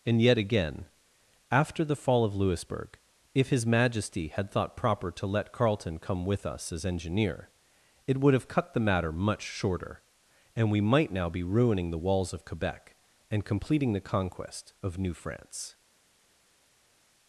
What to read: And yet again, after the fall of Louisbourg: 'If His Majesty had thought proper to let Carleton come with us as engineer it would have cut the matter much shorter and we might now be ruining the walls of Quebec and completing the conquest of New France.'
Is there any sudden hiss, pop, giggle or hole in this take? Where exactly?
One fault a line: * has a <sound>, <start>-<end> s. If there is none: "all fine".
all fine